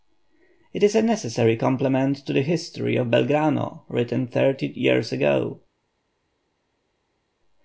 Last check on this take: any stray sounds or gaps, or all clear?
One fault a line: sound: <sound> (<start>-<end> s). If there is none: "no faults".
no faults